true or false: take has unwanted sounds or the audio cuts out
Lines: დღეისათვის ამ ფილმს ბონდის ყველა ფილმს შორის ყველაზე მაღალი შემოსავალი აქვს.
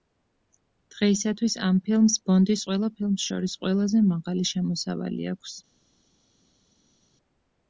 false